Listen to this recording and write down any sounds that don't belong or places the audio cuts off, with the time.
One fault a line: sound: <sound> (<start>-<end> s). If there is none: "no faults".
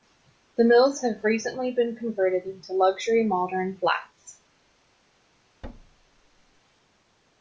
sound: thud (5.6-6.6 s)